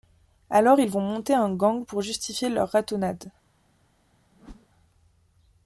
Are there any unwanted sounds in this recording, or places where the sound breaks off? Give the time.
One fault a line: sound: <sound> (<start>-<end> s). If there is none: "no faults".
sound: whoosh (4.3-4.7 s)